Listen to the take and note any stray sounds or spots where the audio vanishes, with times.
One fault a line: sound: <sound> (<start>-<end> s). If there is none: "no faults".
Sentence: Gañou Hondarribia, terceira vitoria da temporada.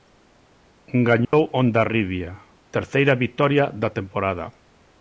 sound: dropout (1.2-1.3 s)